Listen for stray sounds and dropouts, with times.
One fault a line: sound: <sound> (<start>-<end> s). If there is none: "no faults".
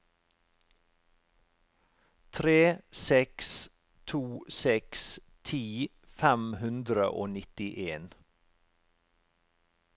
no faults